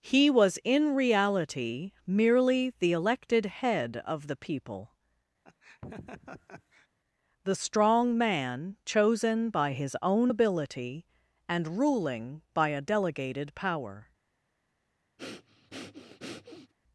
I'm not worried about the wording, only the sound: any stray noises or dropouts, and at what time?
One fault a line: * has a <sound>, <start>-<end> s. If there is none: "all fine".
* has a laugh, 5.4-6.9 s
* has a breath, 15.2-16.7 s